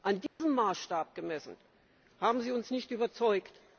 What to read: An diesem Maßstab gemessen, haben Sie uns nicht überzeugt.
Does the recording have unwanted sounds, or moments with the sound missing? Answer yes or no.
yes